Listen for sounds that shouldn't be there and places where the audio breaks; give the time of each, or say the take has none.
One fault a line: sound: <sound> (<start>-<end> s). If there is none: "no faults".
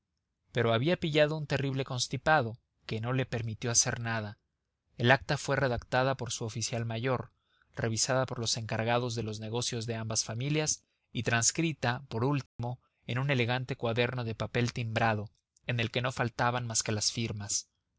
sound: dropout (12.5-12.6 s)